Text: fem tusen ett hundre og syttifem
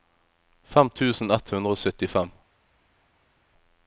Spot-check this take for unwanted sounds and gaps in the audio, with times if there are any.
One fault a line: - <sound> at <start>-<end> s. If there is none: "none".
none